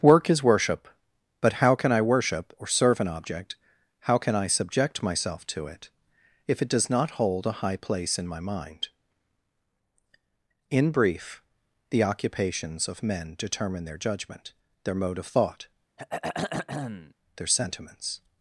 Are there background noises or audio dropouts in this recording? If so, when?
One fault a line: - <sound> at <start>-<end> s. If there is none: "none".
- throat clearing at 16.0-17.1 s